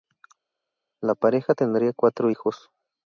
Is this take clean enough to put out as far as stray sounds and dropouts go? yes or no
yes